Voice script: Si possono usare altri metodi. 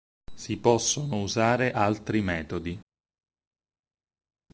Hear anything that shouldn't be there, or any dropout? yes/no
no